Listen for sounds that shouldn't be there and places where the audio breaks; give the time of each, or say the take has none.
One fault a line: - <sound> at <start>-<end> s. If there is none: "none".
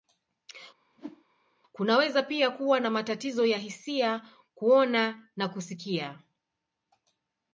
- whoosh at 0.9-1.2 s